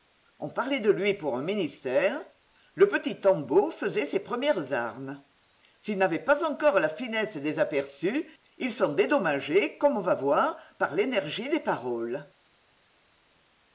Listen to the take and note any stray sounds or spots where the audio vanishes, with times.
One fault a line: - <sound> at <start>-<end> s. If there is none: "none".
none